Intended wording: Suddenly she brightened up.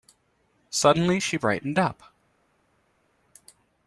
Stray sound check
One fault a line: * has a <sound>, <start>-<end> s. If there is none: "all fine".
all fine